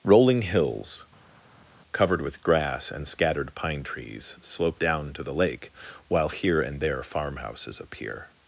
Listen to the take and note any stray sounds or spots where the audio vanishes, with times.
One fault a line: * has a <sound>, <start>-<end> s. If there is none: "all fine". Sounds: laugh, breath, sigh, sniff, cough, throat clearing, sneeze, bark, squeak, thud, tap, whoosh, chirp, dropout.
all fine